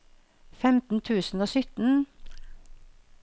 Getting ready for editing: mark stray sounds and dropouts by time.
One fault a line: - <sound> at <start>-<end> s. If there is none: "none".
none